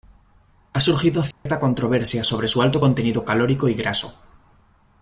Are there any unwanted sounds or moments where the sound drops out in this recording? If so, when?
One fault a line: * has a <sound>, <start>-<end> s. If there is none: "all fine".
* has a dropout, 1.3-1.5 s